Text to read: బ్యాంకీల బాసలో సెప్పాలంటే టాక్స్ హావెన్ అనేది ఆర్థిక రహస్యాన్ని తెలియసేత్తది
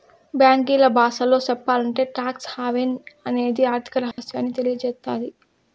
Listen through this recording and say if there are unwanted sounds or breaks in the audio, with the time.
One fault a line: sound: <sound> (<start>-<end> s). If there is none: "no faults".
sound: dropout (4.1-4.2 s)